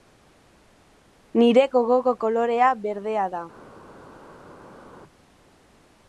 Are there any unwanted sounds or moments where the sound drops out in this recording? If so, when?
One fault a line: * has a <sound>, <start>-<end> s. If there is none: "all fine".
all fine